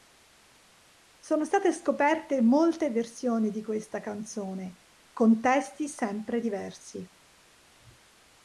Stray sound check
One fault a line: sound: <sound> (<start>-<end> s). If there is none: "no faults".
no faults